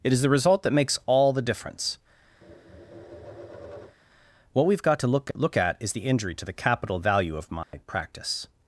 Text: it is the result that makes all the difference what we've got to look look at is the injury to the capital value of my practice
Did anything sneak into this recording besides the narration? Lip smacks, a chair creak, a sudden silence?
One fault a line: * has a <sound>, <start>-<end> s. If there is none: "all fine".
* has a tap, 2.4-4.0 s
* has a dropout, 7.6-7.7 s